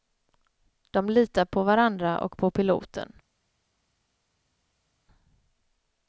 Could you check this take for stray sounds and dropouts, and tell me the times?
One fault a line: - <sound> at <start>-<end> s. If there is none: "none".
none